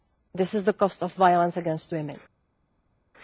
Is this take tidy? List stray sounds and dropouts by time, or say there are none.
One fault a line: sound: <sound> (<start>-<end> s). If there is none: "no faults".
no faults